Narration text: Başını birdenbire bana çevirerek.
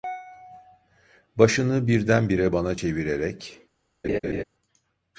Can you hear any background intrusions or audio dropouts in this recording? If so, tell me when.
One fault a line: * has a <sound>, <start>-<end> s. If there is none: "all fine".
* has a laugh, 4.0-4.4 s